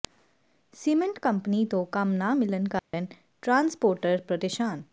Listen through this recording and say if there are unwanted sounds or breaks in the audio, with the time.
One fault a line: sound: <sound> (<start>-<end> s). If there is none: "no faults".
sound: dropout (2.8-2.9 s)